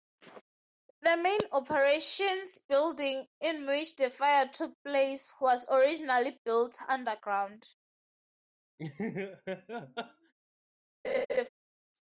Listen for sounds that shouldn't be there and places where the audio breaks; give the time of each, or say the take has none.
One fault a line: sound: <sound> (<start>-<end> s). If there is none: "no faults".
sound: laugh (8.8-10.3 s)
sound: laugh (11.0-11.5 s)